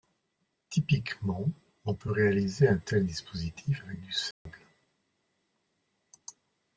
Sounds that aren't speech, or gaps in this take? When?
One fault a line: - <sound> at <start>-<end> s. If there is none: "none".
- dropout at 4.3-4.5 s